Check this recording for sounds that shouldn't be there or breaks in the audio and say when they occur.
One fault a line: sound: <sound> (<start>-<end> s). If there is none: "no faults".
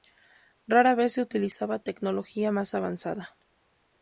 no faults